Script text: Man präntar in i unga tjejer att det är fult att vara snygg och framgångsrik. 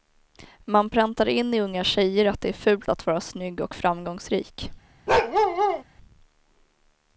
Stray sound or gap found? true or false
true